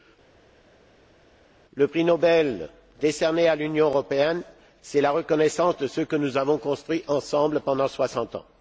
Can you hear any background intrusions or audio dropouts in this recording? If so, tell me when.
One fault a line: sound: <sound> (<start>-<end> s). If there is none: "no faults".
no faults